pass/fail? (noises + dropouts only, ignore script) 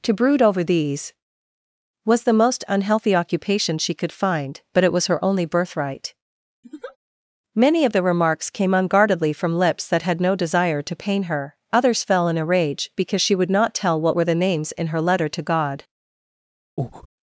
fail